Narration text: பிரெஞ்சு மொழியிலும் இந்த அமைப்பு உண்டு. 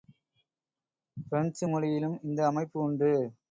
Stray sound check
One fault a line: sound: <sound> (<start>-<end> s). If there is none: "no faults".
no faults